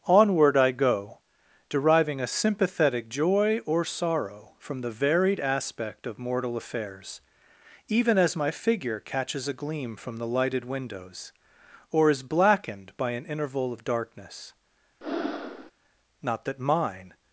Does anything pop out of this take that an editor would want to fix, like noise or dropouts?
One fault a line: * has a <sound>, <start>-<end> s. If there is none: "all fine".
* has a breath, 15.0-15.7 s